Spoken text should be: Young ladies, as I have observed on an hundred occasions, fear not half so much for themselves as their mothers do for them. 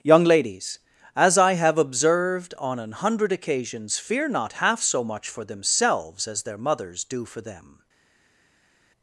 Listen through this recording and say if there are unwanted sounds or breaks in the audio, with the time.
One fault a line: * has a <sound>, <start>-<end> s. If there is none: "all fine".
all fine